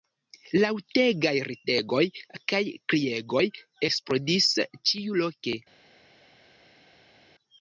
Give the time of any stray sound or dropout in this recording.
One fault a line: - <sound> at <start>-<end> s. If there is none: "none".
none